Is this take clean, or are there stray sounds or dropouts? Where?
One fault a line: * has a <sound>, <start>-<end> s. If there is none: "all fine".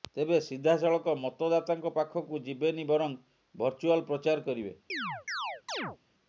* has a chirp, 4.9-6.0 s